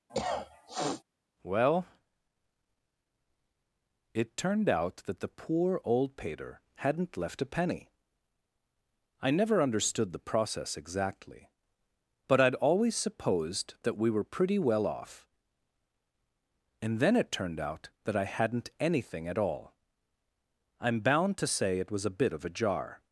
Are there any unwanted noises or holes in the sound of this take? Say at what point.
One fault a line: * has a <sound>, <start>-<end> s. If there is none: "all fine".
* has a cough, 0.1-1.0 s